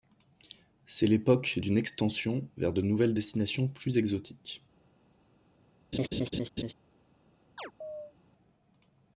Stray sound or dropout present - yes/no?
yes